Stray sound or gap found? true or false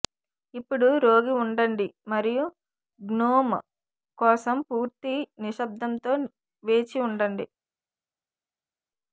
false